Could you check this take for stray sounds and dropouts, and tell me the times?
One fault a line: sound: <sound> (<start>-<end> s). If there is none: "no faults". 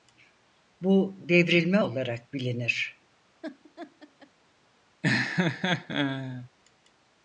sound: laugh (3.4-4.3 s)
sound: laugh (5.0-6.5 s)